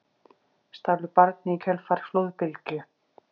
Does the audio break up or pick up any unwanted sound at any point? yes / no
no